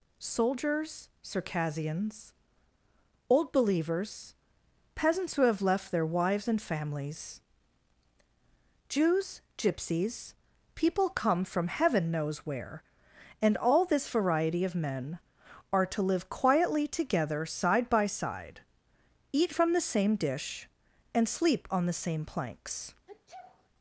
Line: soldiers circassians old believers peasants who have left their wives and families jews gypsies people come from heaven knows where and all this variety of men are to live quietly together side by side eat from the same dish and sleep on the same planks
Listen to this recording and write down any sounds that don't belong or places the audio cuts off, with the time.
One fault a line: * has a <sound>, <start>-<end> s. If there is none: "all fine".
* has a sneeze, 23.1-23.7 s